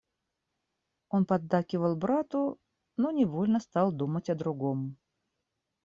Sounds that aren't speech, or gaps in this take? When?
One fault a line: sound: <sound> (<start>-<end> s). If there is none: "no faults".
no faults